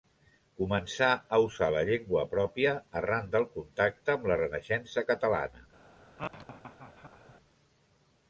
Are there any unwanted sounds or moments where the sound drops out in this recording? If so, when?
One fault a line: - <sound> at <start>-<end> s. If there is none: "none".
- laugh at 6.2-7.3 s